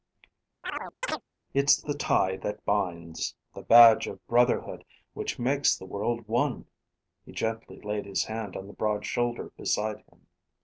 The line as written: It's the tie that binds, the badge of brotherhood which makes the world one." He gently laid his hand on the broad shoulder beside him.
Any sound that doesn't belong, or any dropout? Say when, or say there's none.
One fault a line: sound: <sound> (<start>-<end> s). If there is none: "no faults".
sound: chirp (0.6-1.2 s)